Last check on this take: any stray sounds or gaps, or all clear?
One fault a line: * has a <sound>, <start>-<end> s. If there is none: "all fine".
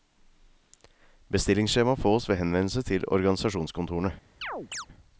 * has a chirp, 4.4-4.9 s